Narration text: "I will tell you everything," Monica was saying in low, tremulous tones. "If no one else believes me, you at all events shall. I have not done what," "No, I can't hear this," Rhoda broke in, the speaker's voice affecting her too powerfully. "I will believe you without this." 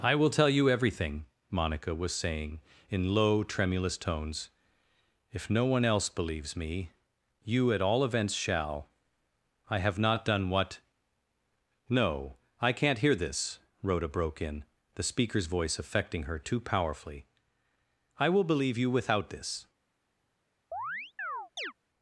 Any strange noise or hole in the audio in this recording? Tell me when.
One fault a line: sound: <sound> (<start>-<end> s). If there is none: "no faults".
sound: chirp (20.7-21.7 s)